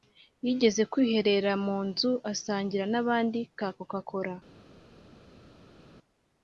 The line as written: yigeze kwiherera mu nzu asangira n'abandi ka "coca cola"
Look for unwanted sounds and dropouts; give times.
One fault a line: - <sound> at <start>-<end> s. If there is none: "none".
none